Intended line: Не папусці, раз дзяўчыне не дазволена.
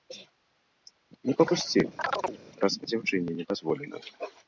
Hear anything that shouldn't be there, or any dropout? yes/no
yes